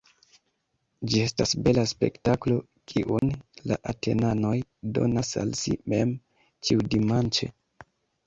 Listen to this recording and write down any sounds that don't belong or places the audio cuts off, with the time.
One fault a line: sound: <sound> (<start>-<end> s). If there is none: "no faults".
sound: dropout (3.2-3.2 s)